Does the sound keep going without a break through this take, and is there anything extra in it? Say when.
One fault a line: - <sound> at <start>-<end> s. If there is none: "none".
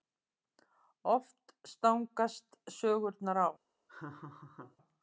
- laugh at 3.9-4.8 s